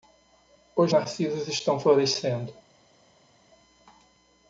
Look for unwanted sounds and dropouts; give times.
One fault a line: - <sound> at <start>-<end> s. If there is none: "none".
none